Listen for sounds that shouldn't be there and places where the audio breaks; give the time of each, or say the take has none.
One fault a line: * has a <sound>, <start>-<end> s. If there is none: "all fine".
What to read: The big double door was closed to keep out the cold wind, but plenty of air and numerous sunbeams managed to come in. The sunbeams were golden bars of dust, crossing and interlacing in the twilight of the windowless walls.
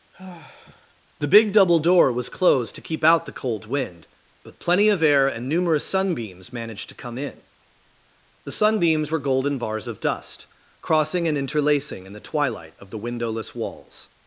* has a sigh, 0.1-0.9 s